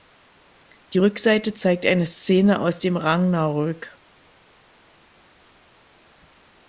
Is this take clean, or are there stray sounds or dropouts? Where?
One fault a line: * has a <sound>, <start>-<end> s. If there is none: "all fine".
all fine